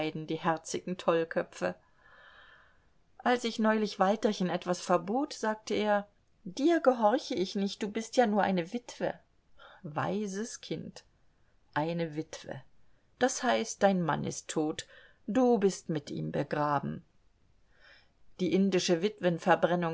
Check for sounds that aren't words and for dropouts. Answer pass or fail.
pass